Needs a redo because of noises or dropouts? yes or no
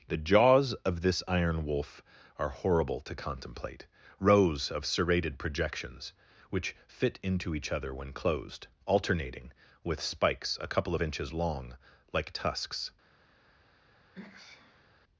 yes